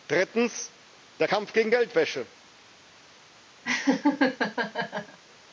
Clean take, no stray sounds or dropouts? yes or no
no